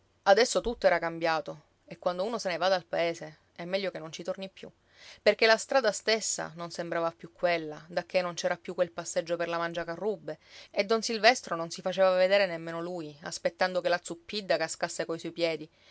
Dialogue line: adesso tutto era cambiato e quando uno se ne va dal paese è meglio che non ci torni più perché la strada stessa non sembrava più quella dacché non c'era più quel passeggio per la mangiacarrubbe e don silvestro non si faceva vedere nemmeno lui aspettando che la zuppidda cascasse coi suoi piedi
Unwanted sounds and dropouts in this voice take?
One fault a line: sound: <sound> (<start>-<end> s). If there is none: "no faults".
no faults